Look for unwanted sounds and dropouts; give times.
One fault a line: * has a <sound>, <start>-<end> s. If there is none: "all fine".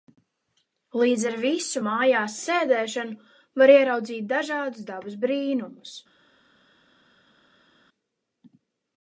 all fine